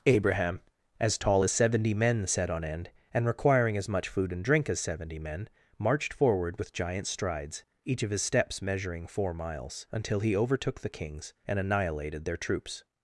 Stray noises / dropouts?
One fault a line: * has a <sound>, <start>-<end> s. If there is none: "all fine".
all fine